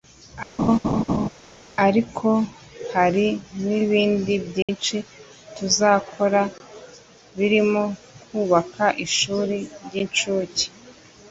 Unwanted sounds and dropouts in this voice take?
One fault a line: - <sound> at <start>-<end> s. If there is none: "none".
- laugh at 0.6-1.3 s
- dropout at 4.6-4.7 s